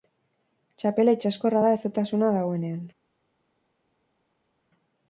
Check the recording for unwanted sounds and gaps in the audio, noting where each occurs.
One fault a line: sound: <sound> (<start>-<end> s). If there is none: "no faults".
no faults